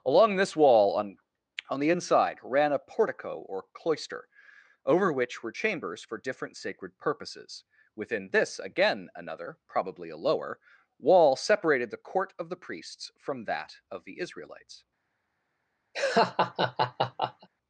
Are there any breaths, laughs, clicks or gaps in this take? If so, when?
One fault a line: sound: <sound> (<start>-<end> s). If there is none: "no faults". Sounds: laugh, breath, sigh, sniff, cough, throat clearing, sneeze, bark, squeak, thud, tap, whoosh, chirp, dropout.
sound: laugh (15.9-17.5 s)